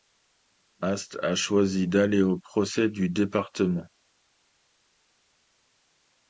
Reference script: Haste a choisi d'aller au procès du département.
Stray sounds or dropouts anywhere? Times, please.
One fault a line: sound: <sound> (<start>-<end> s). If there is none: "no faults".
no faults